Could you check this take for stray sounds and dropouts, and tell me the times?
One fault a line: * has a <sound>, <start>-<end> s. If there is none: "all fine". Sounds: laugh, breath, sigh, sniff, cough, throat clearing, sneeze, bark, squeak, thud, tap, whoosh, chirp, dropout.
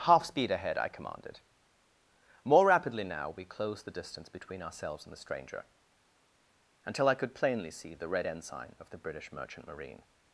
all fine